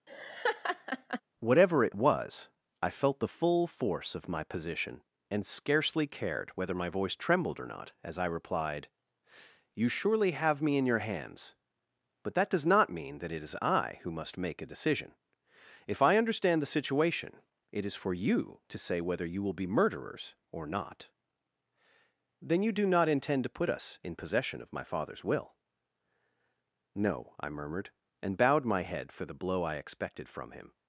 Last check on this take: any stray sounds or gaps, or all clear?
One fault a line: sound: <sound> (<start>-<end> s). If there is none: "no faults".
sound: laugh (0.1-1.2 s)